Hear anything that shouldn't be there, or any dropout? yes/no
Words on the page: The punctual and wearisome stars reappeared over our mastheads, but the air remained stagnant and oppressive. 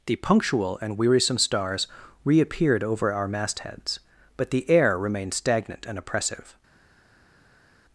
no